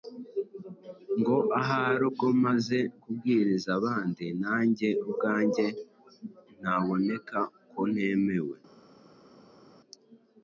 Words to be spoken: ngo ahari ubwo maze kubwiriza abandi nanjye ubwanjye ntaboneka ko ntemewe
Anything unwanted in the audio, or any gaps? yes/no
no